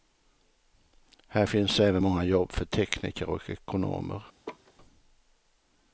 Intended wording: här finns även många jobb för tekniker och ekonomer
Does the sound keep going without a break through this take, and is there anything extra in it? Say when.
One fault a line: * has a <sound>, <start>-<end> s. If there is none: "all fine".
* has a laugh, 4.5-4.7 s